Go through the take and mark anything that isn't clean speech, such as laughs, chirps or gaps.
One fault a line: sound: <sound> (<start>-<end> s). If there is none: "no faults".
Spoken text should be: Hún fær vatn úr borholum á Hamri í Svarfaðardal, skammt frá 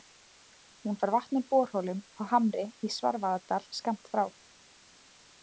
no faults